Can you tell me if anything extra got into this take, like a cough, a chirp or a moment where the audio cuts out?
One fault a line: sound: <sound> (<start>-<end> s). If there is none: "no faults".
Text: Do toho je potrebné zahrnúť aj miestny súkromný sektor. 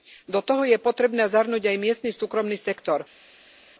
no faults